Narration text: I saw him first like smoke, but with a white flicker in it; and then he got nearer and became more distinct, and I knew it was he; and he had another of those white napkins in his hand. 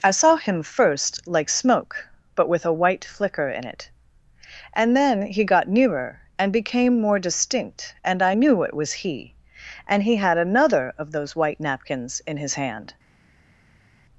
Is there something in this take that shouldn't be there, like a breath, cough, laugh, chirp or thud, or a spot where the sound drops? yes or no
no